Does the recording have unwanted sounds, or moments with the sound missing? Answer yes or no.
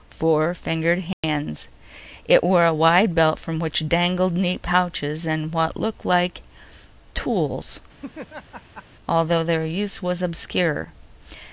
yes